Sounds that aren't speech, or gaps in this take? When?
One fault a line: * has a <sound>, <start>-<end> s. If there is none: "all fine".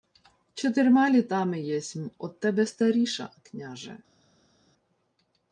all fine